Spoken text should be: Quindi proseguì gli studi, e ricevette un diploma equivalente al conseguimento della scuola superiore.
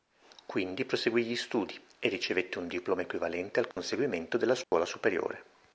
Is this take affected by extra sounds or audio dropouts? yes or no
yes